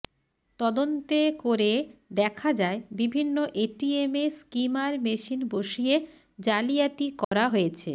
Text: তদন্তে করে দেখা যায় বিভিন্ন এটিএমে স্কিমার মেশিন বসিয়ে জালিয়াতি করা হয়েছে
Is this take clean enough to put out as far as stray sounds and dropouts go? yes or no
no